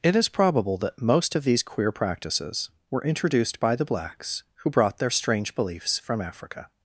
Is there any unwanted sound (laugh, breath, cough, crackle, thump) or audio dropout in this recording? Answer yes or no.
no